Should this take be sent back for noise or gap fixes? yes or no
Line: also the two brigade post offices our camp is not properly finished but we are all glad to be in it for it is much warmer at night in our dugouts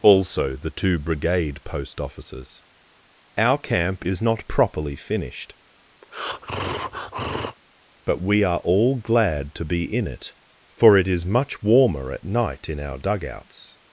yes